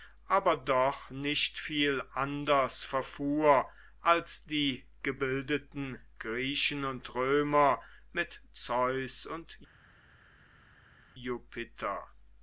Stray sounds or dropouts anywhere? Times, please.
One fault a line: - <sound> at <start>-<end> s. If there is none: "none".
none